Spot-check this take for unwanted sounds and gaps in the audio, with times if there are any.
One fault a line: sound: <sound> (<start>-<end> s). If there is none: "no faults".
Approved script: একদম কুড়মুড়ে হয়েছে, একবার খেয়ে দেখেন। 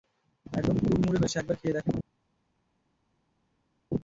no faults